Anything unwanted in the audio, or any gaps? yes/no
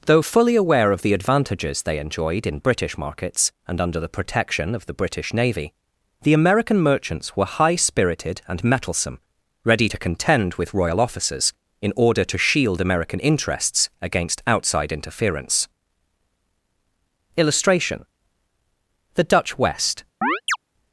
yes